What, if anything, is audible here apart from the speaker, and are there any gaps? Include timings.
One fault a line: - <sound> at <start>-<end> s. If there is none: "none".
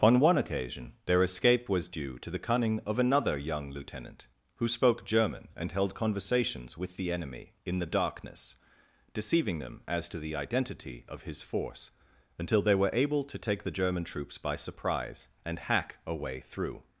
none